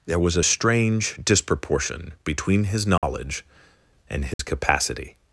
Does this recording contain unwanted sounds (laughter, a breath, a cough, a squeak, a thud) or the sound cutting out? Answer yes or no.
yes